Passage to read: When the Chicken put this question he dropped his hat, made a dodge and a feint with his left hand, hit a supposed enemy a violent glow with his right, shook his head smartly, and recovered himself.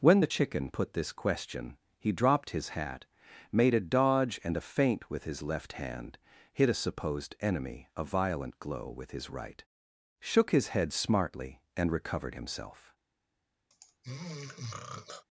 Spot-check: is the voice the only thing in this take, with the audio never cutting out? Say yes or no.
no